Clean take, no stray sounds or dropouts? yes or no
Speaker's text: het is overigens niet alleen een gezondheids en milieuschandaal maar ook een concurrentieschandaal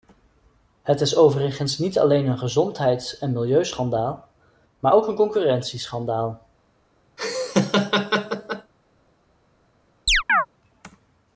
no